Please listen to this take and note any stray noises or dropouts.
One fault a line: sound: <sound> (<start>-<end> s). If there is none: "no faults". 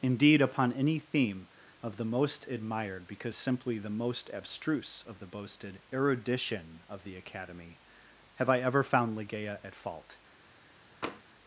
sound: tap (11.0-11.2 s)